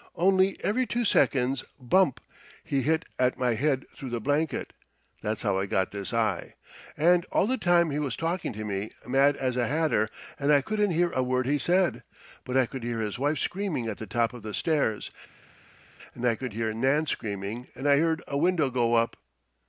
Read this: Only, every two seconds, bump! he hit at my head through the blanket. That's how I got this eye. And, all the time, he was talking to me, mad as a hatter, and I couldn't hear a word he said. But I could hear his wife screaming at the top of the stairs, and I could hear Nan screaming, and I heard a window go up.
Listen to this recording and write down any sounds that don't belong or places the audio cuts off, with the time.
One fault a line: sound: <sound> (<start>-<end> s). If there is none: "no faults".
no faults